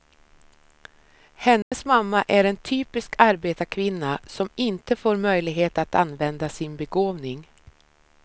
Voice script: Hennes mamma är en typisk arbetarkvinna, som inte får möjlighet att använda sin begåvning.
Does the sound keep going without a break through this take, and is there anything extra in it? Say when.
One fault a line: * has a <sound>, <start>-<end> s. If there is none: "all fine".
* has a dropout, 1.6-1.7 s